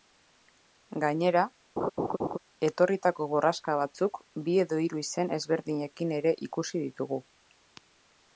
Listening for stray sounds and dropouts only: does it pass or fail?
fail